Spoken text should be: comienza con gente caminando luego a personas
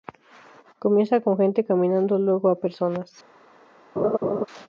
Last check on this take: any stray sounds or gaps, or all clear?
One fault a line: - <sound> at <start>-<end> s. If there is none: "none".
- laugh at 4.0-4.5 s